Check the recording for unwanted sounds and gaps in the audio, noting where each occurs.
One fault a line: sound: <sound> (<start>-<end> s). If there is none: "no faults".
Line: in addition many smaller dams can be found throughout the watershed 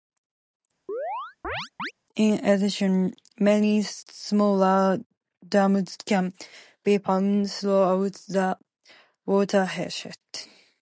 sound: chirp (0.9-1.9 s)